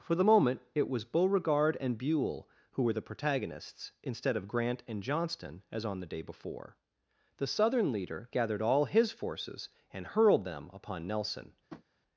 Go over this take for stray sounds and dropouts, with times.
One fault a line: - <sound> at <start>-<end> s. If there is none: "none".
- tap at 11.7-11.8 s